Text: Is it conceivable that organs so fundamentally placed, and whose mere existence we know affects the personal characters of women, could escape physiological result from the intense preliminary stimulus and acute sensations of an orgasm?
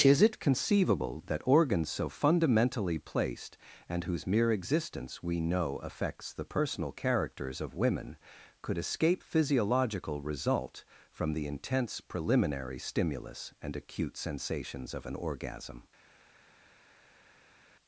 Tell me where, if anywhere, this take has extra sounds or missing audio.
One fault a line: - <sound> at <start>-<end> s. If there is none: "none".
none